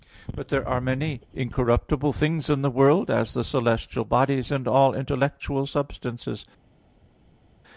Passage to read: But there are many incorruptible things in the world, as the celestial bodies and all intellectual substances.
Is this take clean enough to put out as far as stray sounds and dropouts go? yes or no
yes